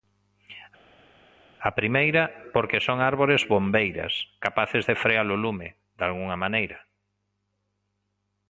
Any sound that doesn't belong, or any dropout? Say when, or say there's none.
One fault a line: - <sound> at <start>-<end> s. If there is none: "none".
none